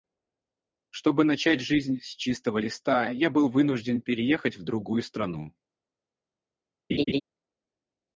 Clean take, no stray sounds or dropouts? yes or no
no